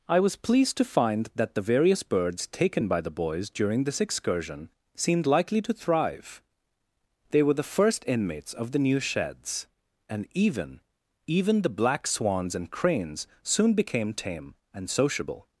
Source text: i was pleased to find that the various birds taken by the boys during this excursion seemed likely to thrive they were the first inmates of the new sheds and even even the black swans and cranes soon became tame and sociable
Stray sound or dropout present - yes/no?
no